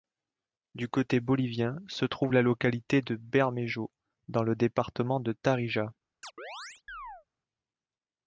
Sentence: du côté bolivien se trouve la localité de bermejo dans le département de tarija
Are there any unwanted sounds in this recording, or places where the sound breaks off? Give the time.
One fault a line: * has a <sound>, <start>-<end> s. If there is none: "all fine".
* has a chirp, 6.2-7.3 s